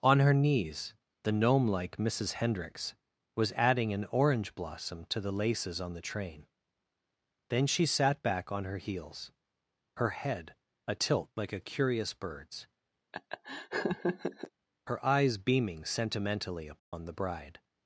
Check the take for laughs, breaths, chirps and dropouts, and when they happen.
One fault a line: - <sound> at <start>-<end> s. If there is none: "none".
- laugh at 13.1-14.5 s
- dropout at 16.8-16.9 s